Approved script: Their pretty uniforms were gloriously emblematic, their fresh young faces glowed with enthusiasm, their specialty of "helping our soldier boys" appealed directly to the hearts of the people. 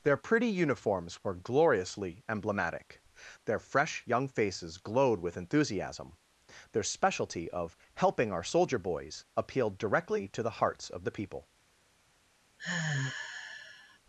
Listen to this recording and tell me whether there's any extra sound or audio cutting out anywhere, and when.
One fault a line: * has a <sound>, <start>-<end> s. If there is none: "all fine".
* has a sigh, 12.6-14.0 s